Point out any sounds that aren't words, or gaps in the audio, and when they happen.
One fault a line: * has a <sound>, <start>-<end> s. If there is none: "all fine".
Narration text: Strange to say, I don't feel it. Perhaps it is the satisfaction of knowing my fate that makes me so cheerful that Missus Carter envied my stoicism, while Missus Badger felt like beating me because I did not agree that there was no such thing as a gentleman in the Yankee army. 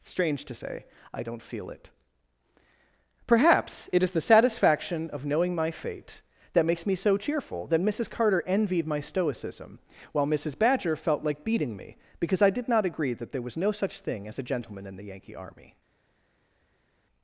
all fine